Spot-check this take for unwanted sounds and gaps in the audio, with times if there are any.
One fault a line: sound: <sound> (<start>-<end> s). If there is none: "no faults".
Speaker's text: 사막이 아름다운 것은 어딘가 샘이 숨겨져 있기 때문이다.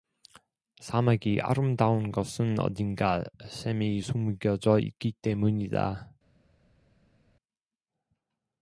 no faults